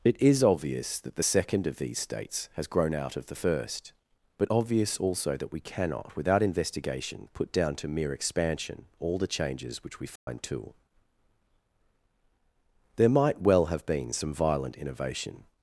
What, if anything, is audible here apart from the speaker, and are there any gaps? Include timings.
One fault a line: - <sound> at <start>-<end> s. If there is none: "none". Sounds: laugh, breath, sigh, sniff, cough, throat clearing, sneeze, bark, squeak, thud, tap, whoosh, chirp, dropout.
- dropout at 10.2-10.3 s